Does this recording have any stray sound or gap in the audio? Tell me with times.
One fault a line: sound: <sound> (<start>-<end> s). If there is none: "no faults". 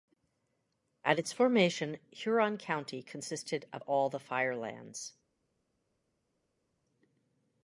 no faults